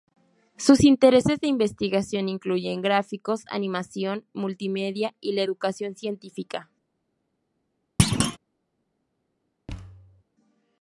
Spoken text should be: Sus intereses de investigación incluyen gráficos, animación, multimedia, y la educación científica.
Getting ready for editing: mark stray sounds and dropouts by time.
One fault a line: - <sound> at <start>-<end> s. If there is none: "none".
- thud at 8.0-8.4 s
- thud at 9.7-10.2 s